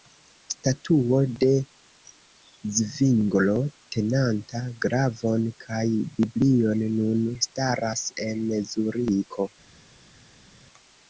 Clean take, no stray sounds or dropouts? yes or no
yes